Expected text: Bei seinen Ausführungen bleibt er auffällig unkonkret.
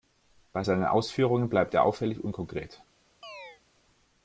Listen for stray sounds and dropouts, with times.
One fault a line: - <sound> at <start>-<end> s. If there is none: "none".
- chirp at 3.2-3.6 s